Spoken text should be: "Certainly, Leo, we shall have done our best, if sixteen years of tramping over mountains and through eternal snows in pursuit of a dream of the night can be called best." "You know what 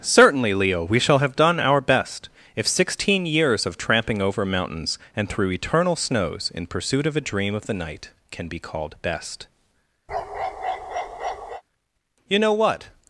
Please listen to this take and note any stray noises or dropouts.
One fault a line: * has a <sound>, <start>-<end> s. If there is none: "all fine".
* has a bark, 10.1-11.6 s